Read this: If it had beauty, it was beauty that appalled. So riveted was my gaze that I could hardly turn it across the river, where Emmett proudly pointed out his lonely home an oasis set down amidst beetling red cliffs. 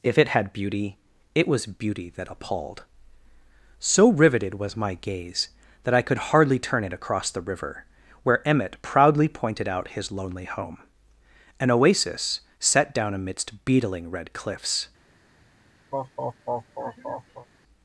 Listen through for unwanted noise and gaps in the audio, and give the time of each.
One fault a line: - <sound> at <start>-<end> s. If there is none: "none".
- laugh at 15.9-17.5 s